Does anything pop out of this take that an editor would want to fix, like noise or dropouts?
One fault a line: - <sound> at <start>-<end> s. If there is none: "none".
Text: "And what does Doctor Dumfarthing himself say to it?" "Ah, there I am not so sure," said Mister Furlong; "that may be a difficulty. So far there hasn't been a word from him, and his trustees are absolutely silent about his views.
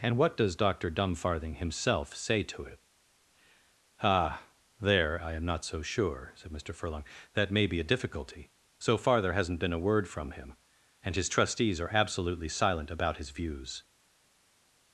none